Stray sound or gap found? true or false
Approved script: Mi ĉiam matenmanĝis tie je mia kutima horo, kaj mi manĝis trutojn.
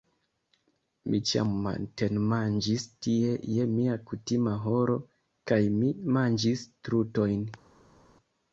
false